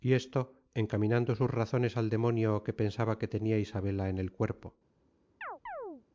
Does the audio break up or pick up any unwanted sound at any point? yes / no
yes